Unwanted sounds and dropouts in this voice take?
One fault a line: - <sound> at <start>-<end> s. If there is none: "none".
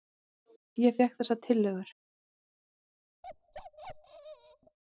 - bark at 3.2-4.8 s